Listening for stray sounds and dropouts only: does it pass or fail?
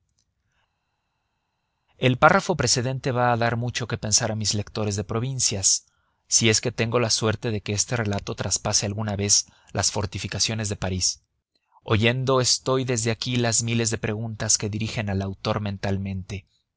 pass